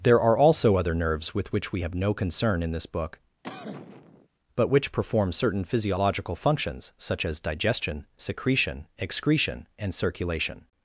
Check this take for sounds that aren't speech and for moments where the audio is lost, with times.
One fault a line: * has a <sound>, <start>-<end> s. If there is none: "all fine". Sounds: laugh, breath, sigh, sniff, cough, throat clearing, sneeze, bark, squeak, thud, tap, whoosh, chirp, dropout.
* has a cough, 3.4-4.3 s